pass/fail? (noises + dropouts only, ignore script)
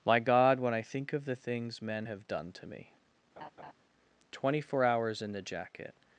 fail